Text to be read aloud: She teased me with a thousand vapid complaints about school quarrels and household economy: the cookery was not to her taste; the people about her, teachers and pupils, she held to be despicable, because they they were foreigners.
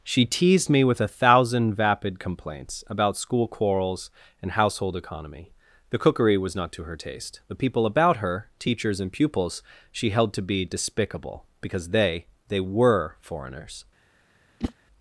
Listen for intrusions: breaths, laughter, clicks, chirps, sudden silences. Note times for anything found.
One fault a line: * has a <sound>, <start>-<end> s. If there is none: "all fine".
* has a whoosh, 14.6-14.7 s